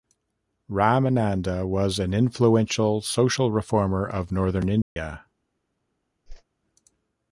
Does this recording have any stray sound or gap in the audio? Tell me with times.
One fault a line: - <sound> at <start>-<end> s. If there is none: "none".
- dropout at 4.8-5.0 s
- whoosh at 6.3-6.4 s